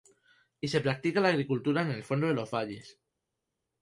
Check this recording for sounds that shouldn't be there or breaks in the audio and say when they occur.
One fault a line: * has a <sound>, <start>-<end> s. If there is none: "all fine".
all fine